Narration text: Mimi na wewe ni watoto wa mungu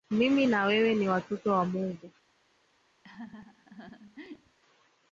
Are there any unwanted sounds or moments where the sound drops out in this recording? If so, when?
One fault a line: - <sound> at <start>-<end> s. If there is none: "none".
- laugh at 3.0-4.6 s